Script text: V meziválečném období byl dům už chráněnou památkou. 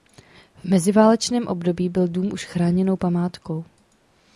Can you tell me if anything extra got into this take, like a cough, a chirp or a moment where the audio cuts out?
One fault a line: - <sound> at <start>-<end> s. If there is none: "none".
none